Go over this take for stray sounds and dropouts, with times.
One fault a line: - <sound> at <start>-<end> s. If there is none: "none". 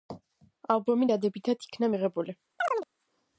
- chirp at 2.6-2.9 s